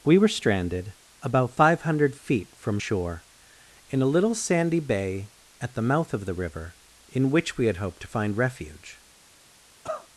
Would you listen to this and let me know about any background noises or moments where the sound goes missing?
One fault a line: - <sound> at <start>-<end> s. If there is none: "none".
- cough at 9.8-10.1 s